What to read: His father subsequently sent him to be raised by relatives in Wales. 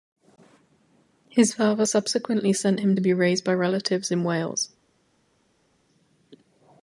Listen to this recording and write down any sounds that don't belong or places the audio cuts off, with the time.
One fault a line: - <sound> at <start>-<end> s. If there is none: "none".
none